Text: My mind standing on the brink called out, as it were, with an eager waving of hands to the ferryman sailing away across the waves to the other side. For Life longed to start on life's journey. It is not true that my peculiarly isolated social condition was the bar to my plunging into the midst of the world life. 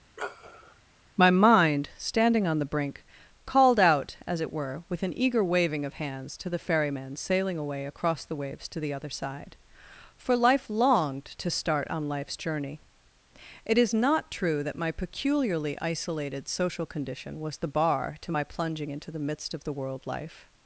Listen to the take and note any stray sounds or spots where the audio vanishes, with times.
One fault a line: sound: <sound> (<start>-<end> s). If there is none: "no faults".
sound: sniff (0.2-0.8 s)